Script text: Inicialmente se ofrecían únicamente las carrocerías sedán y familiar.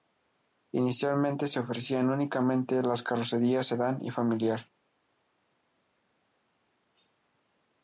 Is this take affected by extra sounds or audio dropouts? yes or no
no